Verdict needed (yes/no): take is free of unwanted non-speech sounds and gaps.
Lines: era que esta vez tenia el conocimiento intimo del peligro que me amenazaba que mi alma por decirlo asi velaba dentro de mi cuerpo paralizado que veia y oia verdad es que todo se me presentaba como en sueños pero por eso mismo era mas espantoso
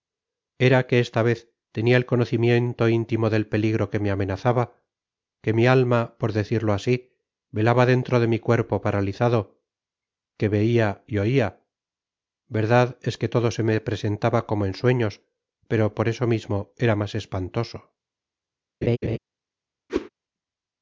no